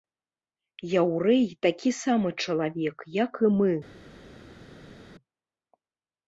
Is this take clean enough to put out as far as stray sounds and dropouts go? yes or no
yes